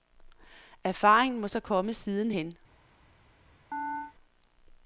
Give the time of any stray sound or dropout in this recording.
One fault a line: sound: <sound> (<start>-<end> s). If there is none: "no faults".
sound: chirp (3.7-4.1 s)